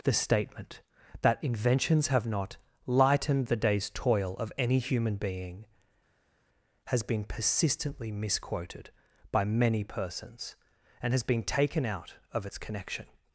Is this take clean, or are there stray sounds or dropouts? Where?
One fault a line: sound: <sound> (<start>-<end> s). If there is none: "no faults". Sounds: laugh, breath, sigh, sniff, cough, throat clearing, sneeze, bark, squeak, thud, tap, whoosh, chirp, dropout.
no faults